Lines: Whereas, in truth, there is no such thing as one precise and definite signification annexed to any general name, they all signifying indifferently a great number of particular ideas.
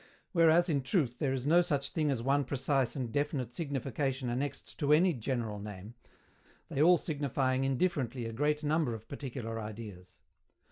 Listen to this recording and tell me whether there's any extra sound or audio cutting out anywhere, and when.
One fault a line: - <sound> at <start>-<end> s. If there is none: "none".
none